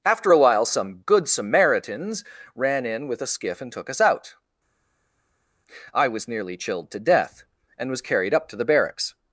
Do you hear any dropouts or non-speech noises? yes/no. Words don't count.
no